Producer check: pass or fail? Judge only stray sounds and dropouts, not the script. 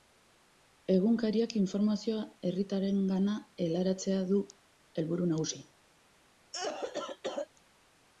fail